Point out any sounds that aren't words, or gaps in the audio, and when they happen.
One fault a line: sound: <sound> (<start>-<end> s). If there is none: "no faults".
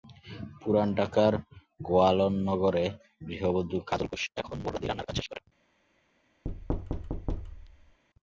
sound: thud (6.4-8.0 s)